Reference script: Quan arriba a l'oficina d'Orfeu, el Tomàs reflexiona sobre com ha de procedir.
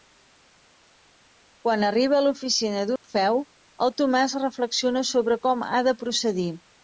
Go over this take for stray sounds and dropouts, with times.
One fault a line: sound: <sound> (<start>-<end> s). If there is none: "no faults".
sound: dropout (3.0-3.0 s)